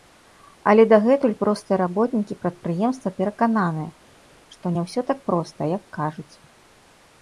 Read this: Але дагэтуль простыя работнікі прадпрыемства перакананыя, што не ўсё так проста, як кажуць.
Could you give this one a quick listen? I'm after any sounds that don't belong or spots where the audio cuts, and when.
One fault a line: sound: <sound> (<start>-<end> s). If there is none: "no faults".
no faults